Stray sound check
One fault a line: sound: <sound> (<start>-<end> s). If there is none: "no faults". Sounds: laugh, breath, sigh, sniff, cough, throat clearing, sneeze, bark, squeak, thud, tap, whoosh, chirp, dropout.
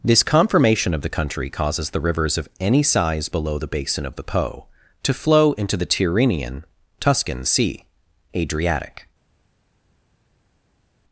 no faults